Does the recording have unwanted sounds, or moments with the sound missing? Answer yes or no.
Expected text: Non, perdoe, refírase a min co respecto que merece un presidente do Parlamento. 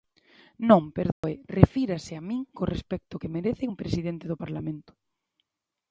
yes